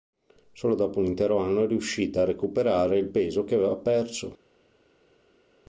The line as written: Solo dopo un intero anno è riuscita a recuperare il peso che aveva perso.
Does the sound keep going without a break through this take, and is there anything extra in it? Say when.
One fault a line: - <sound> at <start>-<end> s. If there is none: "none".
none